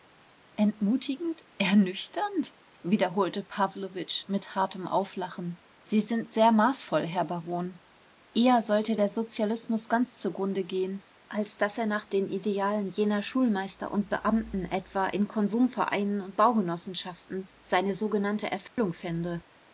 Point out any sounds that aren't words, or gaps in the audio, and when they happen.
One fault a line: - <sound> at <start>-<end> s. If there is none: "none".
- dropout at 18.7-18.8 s